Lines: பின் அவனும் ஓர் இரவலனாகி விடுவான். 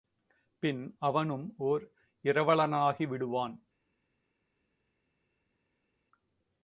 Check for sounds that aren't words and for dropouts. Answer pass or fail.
pass